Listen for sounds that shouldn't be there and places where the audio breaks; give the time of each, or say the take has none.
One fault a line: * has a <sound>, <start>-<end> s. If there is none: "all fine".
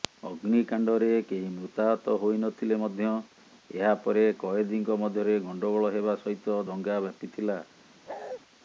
* has a bark, 8.1-8.4 s